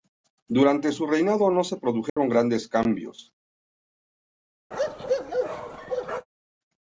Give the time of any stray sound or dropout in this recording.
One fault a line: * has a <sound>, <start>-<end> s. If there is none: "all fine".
* has a dropout, 2.1-2.2 s
* has a bark, 4.7-6.3 s